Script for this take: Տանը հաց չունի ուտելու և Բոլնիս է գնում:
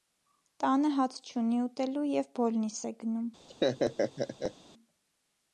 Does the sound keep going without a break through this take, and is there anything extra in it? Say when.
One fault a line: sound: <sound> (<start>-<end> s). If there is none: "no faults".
sound: laugh (3.5-4.5 s)